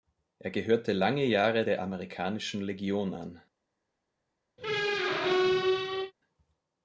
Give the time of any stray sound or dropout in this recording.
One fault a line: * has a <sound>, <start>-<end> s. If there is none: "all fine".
* has a squeak, 4.6-6.1 s